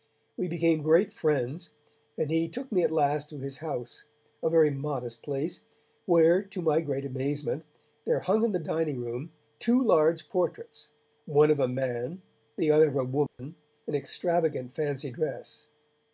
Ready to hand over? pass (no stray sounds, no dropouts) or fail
fail